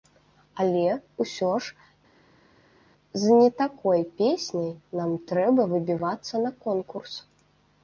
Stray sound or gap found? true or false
false